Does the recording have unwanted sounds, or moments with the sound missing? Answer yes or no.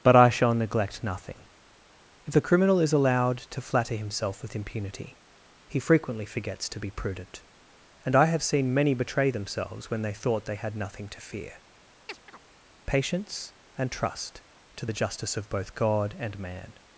yes